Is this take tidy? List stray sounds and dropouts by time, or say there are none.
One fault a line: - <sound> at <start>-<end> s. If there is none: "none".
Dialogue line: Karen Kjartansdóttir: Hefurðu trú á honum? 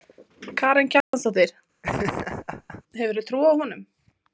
- dropout at 1.0-1.1 s
- laugh at 1.8-2.8 s